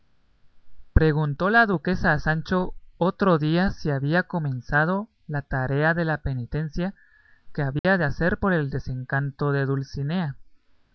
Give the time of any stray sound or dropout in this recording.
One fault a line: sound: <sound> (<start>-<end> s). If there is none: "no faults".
sound: dropout (7.8-7.8 s)